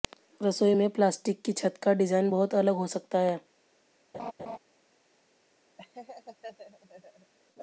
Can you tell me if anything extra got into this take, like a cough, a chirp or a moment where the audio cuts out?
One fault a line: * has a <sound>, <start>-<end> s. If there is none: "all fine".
* has a laugh, 4.1-4.6 s
* has a laugh, 5.8-7.3 s